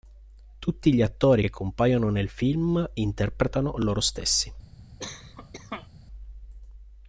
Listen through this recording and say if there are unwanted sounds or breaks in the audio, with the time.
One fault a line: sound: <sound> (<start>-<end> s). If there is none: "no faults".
sound: cough (5.0-5.9 s)